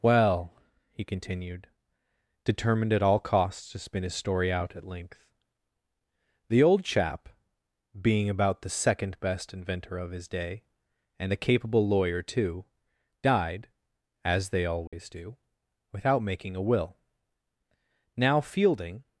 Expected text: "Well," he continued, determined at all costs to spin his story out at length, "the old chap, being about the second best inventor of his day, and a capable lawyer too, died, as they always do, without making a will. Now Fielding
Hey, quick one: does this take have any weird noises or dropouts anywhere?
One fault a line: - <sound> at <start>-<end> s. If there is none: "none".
- dropout at 14.9-14.9 s